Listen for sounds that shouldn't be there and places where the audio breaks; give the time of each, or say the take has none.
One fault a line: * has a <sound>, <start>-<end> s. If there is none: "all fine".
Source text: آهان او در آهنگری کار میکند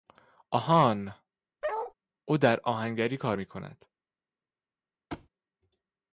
* has a bark, 1.6-1.9 s
* has a thud, 5.1-5.3 s